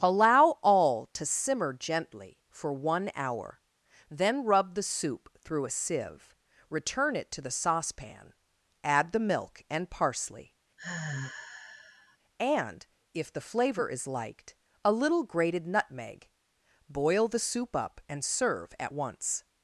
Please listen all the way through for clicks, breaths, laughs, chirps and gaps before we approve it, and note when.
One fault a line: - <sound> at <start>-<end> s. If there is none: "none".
- sigh at 10.8-12.2 s